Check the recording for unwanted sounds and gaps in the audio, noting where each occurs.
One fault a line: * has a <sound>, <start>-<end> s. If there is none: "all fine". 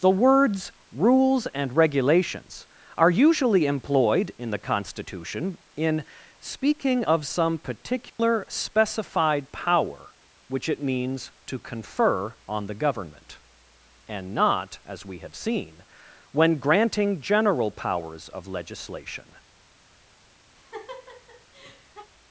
* has a dropout, 8.1-8.2 s
* has a laugh, 20.5-22.1 s